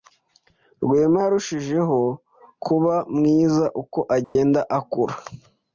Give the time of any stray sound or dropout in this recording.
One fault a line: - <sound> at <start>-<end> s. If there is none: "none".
- dropout at 4.2-4.4 s